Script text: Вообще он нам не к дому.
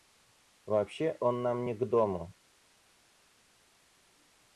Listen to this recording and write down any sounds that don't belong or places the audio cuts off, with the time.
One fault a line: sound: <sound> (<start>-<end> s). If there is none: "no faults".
no faults